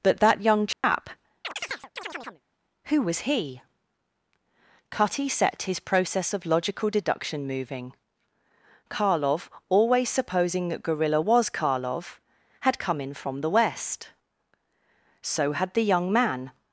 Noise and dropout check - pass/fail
fail